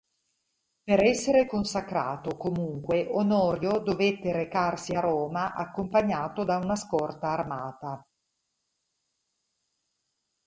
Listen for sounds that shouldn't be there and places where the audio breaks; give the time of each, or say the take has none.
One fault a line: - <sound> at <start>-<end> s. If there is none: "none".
none